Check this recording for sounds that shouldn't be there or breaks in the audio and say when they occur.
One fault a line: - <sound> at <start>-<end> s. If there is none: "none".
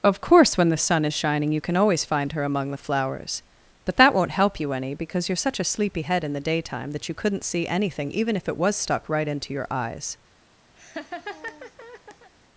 - laugh at 10.8-12.3 s